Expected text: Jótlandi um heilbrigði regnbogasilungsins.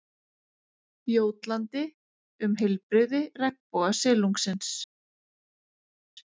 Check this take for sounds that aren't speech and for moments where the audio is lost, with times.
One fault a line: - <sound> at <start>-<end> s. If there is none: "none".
none